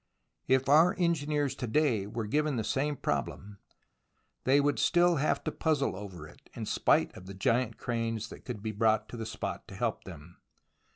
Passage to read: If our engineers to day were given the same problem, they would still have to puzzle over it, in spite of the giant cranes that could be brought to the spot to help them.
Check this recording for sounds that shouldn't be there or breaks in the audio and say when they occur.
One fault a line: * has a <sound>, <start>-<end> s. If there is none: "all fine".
all fine